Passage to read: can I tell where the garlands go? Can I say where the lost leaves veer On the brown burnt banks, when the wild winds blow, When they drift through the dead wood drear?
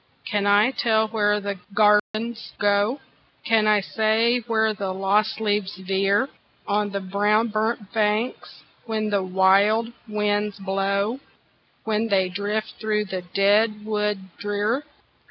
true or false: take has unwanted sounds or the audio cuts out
true